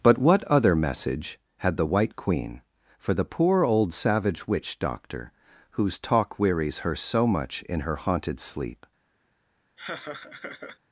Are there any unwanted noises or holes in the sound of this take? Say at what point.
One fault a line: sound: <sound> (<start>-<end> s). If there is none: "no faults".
sound: laugh (9.8-10.8 s)